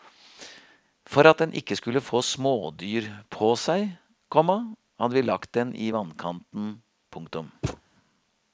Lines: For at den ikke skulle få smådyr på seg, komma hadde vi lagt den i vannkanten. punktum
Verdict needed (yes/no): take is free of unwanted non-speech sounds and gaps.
no